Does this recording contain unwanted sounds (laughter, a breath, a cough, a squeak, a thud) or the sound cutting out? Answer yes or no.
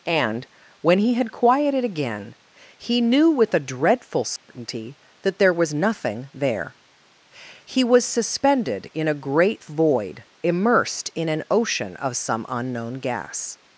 yes